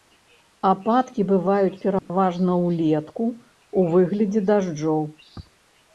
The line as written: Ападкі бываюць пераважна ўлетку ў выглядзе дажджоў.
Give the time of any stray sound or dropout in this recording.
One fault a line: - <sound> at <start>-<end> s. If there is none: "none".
- dropout at 2.0-2.1 s